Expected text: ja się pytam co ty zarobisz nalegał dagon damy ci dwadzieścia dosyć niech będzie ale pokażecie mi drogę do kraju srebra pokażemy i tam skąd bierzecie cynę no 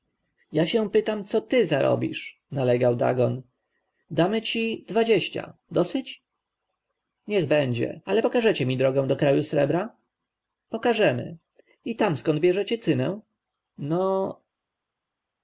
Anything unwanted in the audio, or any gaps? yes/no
no